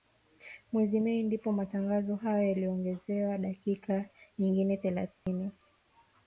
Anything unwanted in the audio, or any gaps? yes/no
yes